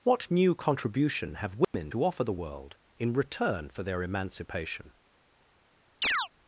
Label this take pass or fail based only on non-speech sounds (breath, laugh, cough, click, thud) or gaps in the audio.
fail